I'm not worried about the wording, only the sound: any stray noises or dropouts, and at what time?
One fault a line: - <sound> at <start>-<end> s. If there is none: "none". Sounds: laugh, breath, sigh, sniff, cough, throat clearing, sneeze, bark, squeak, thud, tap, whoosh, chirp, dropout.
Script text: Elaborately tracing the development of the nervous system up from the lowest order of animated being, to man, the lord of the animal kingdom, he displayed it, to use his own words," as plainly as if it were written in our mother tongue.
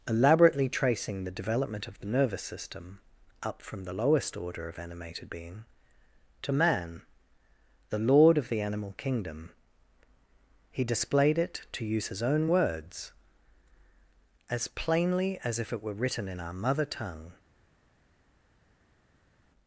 none